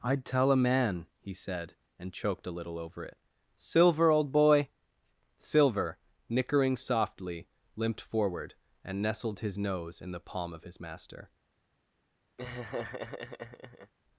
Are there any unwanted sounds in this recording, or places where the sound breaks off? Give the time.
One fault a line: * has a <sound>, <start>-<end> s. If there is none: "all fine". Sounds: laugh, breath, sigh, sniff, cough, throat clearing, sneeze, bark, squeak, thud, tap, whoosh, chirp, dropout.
* has a laugh, 12.4-13.9 s